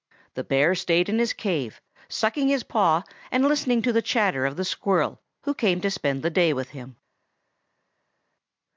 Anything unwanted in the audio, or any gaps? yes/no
no